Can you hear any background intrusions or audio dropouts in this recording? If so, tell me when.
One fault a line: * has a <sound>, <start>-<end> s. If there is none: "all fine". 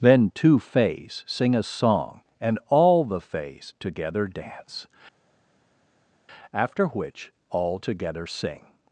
all fine